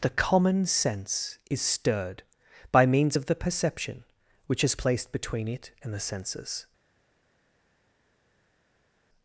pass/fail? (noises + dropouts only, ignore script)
pass